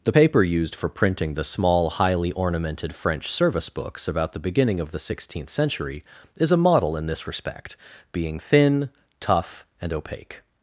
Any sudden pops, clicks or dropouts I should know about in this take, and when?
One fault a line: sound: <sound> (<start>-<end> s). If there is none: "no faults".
no faults